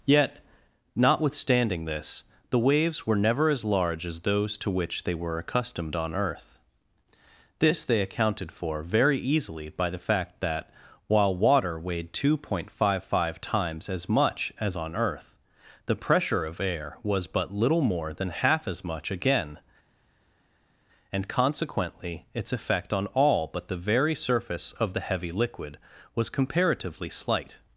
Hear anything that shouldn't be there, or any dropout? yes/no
no